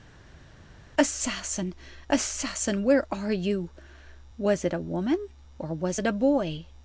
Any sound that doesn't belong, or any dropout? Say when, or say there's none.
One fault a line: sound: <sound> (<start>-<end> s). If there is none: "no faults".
no faults